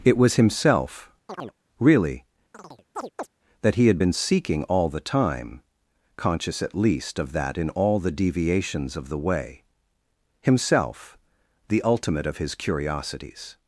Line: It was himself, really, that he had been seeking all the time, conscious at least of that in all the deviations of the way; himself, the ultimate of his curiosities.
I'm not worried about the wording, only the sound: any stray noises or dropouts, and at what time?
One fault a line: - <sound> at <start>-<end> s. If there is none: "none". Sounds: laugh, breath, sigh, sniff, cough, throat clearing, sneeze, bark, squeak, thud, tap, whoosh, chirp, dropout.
- chirp at 1.3-1.6 s
- chirp at 2.5-3.3 s